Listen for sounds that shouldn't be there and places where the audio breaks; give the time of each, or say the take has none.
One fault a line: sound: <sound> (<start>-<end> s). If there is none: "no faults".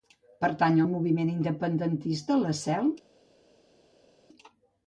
no faults